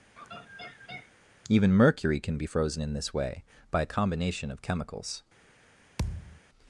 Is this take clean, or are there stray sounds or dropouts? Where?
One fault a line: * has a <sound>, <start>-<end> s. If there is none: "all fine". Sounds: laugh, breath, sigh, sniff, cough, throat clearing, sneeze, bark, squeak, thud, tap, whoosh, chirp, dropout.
* has a laugh, 0.2-1.1 s
* has a thud, 6.0-6.4 s